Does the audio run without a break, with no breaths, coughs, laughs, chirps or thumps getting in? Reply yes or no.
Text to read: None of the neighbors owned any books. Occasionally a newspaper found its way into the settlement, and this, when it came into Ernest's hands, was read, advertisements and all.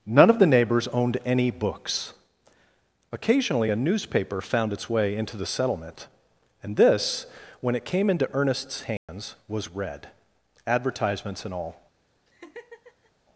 no